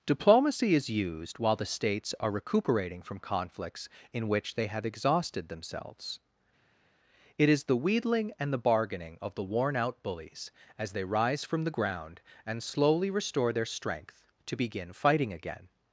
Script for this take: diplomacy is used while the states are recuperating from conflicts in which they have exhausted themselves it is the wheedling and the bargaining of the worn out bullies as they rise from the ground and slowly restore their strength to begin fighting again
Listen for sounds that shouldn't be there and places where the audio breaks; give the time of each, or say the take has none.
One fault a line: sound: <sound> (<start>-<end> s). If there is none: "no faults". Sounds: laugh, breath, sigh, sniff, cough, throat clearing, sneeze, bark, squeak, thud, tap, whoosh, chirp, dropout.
no faults